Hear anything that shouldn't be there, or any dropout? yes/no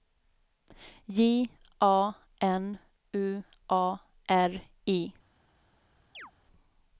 yes